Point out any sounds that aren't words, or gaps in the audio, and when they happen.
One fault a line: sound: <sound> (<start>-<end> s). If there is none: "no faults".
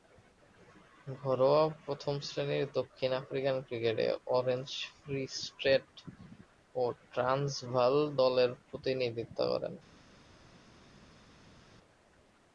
no faults